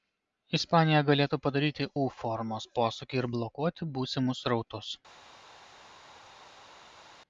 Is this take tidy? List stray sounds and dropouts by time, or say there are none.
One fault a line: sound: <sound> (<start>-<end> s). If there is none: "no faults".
no faults